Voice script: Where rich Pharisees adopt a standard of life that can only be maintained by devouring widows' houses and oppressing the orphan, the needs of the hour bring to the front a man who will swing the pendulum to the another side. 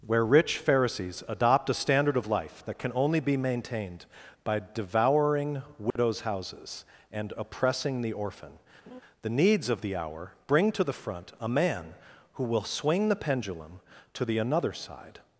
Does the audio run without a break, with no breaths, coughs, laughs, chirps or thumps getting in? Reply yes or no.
no